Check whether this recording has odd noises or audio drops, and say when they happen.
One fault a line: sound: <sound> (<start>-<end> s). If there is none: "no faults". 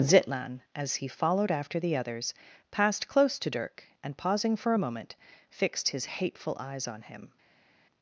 no faults